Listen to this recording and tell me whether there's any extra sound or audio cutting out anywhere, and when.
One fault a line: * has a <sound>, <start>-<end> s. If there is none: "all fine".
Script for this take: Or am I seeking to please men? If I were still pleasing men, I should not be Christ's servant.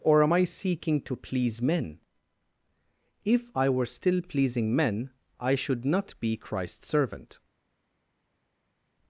all fine